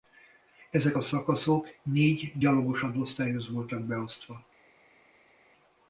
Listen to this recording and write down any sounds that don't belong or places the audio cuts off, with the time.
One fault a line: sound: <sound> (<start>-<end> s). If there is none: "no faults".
no faults